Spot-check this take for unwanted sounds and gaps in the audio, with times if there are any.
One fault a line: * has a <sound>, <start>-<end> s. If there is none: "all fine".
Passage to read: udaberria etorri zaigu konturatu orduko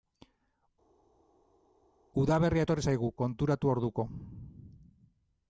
all fine